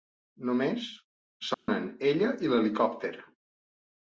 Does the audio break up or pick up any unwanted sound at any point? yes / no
yes